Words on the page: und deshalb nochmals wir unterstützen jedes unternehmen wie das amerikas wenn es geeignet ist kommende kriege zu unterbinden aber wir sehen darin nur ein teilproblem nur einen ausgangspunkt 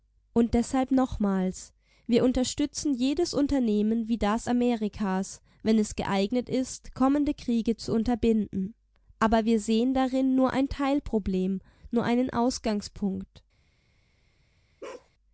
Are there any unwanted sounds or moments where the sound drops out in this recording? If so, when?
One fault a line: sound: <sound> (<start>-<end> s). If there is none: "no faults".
sound: bark (14.8-15.1 s)